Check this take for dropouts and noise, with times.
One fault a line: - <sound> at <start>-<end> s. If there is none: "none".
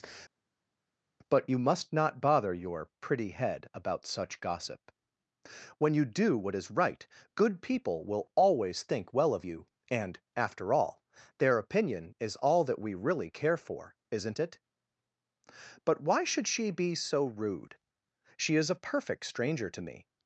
none